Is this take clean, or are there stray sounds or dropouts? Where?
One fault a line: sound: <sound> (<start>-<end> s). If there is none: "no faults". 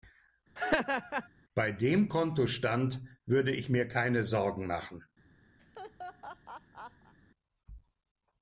sound: laugh (0.6-1.3 s)
sound: laugh (5.6-7.1 s)